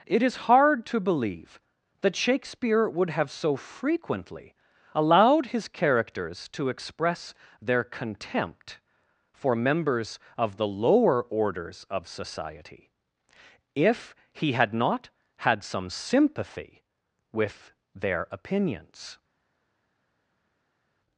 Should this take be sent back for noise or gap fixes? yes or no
no